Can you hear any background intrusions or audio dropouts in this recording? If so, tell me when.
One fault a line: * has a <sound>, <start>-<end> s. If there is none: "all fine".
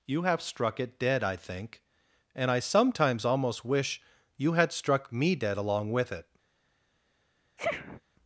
* has a sniff, 7.6-8.0 s